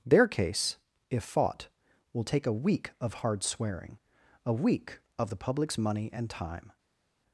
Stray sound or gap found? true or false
false